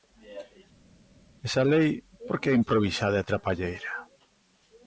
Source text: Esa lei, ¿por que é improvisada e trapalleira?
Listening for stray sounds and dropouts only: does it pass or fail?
pass